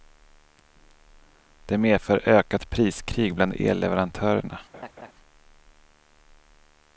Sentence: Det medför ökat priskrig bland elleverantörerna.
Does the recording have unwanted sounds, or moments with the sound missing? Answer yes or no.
yes